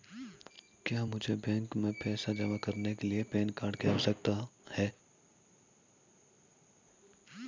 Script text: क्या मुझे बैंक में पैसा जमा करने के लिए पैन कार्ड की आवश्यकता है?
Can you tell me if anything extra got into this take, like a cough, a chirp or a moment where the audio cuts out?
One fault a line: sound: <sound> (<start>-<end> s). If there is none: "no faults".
no faults